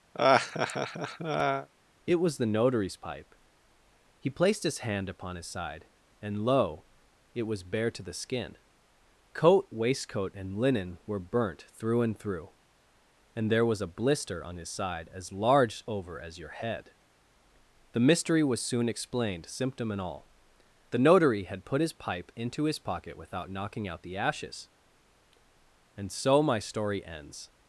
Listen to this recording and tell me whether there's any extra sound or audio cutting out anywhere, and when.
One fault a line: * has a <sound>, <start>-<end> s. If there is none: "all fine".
* has a laugh, 0.1-1.7 s